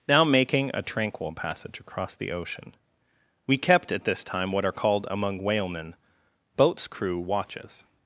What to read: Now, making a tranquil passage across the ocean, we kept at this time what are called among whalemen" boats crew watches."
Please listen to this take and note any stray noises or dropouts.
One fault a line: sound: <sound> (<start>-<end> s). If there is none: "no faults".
no faults